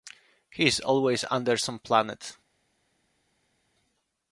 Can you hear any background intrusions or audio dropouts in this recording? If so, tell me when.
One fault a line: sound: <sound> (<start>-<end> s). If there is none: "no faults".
no faults